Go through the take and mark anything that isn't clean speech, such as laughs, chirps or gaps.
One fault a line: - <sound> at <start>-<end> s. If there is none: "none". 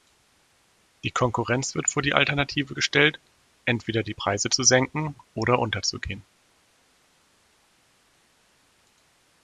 none